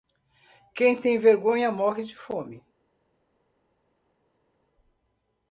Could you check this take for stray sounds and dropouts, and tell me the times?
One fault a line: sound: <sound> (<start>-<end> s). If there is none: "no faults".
no faults